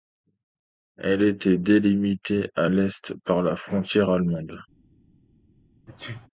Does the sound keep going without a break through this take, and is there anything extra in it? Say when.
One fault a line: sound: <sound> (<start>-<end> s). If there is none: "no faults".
sound: sneeze (5.9-6.3 s)